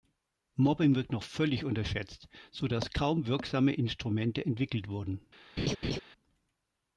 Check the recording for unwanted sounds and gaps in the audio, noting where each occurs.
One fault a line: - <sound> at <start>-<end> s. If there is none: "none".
- laugh at 5.6-6.0 s